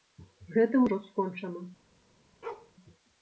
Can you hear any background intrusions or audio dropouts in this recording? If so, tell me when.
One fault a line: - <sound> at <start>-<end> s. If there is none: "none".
- bark at 2.4-2.7 s